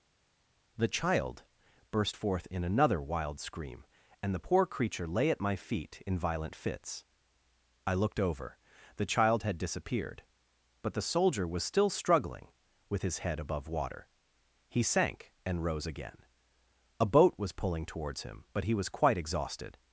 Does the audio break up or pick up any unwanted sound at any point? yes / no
no